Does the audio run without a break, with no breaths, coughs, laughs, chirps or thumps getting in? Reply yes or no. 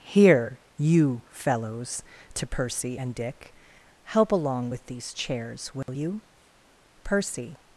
no